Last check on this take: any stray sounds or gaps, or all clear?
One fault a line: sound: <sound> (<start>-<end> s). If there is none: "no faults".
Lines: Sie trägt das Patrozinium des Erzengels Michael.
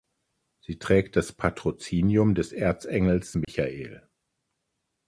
sound: dropout (3.4-3.5 s)